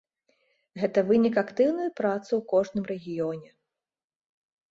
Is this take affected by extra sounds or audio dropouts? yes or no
no